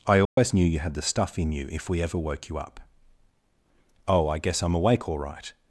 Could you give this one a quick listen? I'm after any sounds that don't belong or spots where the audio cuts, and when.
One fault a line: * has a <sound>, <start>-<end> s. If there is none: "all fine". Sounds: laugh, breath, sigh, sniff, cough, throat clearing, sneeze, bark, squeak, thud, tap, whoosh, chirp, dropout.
* has a dropout, 0.2-0.4 s